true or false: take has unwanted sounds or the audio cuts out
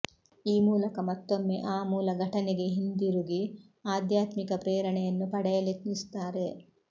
false